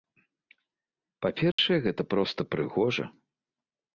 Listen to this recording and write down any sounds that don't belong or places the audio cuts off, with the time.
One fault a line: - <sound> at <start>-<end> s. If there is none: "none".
- dropout at 1.5-1.6 s